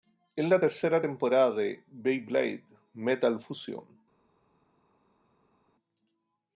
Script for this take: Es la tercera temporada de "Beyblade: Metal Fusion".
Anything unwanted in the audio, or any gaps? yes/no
no